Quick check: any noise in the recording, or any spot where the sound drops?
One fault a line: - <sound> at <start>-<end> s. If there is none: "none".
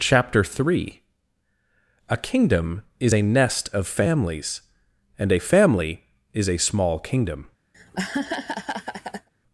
- laugh at 7.7-9.3 s